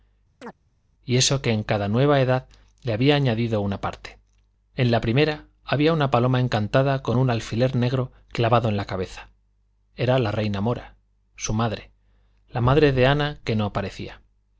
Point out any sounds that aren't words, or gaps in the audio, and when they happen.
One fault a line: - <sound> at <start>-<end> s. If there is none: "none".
- chirp at 0.4-0.5 s